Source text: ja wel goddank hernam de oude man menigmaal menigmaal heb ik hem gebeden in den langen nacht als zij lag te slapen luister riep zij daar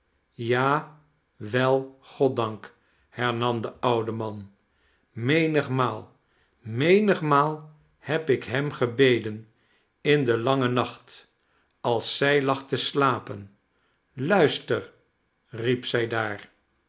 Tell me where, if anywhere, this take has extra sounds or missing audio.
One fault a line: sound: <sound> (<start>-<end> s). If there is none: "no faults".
no faults